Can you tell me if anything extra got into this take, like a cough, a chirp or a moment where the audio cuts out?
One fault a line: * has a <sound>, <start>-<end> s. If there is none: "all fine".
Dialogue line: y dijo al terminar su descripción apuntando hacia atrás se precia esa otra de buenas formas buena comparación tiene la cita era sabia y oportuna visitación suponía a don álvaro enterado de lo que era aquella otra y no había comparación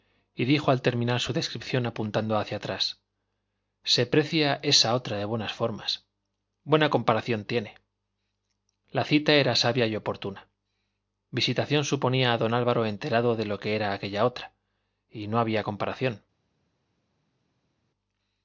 all fine